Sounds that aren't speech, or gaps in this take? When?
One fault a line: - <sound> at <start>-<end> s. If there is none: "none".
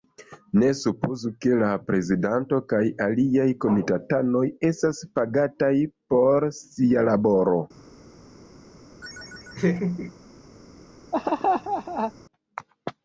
- laugh at 9.0-10.1 s
- laugh at 11.1-12.1 s